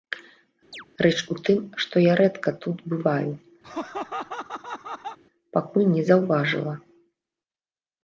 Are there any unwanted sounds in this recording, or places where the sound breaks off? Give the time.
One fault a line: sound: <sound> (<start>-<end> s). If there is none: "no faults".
sound: chirp (0.7-0.9 s)
sound: laugh (3.6-5.2 s)